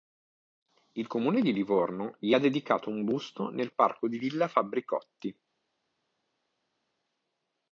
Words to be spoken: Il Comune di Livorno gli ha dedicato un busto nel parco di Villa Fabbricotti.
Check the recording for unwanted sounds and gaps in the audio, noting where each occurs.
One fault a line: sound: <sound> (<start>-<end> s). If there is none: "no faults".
no faults